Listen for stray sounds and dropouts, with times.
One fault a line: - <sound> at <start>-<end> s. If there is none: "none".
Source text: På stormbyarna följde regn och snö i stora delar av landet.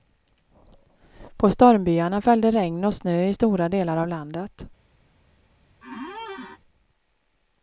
- squeak at 5.8-6.6 s